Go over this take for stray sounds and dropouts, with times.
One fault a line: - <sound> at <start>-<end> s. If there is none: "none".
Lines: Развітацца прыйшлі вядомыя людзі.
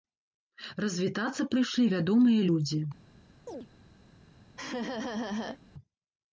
- chirp at 3.5-3.7 s
- laugh at 4.6-5.6 s